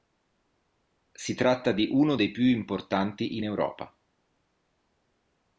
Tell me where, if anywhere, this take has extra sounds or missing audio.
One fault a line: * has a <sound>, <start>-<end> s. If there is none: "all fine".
all fine